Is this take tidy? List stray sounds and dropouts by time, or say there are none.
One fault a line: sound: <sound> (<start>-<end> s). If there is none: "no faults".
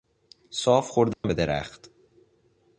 sound: dropout (1.1-1.2 s)